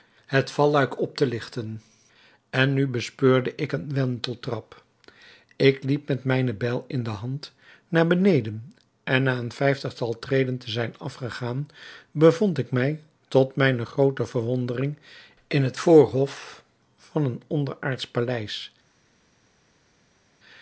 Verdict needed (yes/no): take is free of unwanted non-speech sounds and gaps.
yes